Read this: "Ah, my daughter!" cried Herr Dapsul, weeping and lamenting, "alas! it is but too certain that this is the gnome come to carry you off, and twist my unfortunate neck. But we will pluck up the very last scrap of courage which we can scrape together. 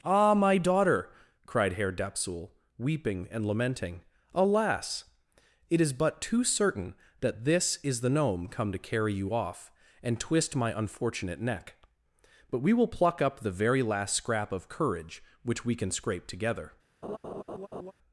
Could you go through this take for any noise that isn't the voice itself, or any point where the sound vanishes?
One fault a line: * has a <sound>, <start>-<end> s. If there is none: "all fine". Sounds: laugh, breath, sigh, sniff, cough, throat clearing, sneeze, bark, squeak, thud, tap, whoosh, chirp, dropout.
* has a laugh, 17.0-17.9 s